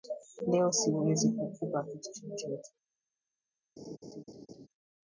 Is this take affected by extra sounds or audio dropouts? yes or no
yes